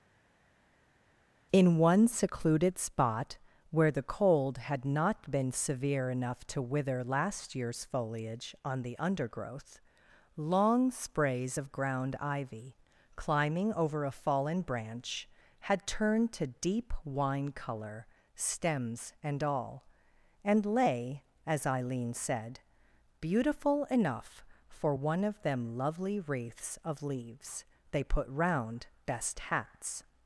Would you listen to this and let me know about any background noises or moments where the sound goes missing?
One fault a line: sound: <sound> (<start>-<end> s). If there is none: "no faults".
no faults